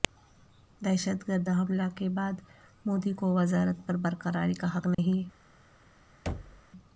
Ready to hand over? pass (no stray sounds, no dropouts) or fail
fail